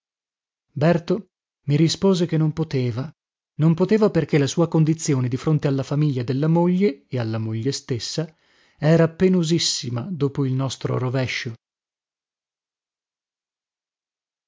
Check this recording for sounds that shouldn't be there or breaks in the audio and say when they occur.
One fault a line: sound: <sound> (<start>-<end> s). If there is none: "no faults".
no faults